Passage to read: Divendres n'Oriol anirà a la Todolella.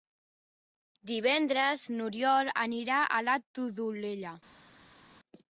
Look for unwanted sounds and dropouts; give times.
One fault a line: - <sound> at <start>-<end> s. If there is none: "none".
none